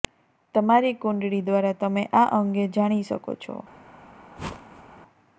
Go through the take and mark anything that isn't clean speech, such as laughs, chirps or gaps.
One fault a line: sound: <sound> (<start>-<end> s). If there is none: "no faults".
sound: whoosh (4.4-5.0 s)